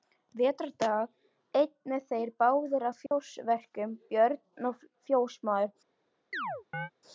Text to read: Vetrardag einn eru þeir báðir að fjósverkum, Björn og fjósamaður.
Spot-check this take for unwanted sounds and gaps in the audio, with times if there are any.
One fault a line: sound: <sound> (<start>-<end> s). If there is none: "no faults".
sound: dropout (3.1-3.1 s)
sound: chirp (6.3-6.9 s)